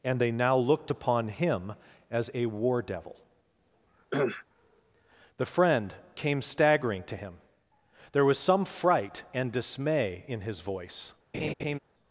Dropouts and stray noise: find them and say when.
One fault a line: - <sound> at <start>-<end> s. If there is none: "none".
- cough at 4.1-4.4 s
- laugh at 11.3-11.8 s